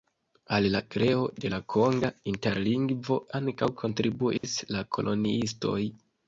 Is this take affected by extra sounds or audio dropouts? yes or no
yes